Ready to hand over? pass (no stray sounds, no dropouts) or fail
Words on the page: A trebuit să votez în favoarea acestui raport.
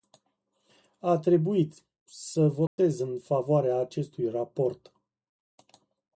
fail